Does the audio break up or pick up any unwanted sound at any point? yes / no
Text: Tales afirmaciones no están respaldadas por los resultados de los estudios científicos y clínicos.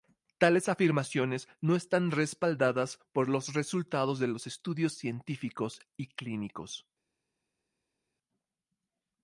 no